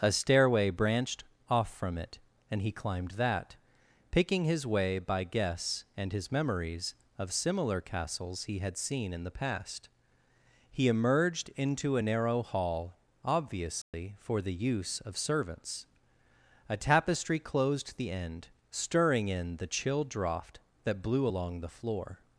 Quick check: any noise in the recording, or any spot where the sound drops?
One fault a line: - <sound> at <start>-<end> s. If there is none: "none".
- dropout at 13.8-13.9 s